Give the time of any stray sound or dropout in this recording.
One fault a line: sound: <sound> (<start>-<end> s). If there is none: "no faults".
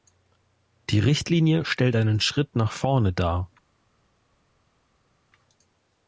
no faults